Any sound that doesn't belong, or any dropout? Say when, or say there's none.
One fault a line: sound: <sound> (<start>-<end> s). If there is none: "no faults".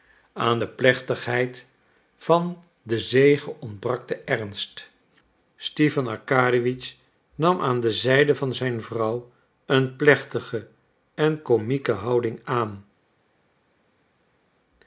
no faults